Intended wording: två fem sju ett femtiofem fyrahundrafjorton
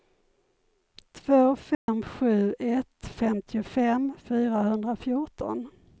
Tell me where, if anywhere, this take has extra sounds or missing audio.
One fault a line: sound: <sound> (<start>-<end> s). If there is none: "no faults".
sound: dropout (1.7-1.9 s)